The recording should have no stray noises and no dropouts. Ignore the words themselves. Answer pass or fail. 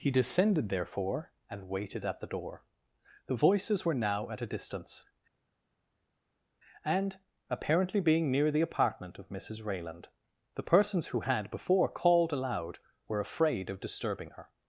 pass